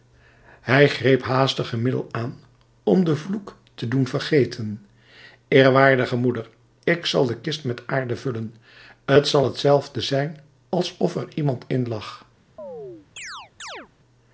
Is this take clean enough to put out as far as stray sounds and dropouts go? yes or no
no